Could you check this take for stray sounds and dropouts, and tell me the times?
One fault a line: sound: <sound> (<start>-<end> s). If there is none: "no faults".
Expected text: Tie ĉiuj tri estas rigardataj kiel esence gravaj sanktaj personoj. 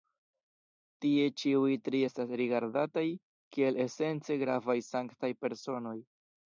no faults